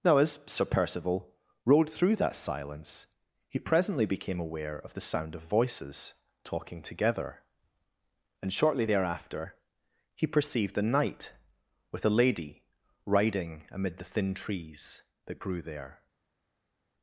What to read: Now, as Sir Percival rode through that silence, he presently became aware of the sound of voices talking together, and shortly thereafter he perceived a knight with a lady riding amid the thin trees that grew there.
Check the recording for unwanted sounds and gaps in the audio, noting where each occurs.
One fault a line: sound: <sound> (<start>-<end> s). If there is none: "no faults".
no faults